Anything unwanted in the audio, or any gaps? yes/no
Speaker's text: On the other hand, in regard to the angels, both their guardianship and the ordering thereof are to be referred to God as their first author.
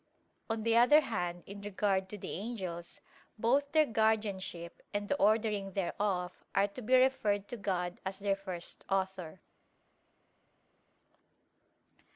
no